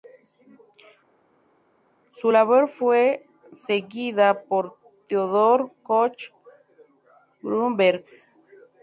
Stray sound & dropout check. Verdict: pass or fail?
pass